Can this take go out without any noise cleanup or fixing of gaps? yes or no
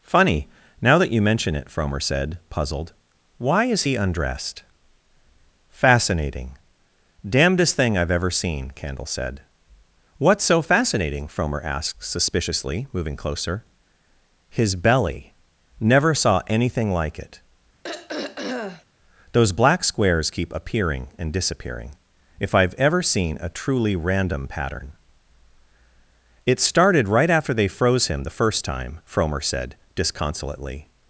no